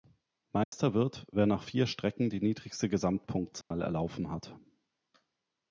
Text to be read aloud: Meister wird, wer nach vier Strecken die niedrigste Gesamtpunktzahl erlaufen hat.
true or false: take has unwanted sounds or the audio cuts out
true